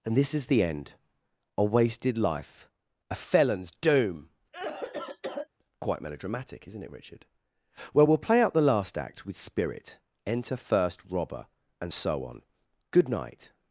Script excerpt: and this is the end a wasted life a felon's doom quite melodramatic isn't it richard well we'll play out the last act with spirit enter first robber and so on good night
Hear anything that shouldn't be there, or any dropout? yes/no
yes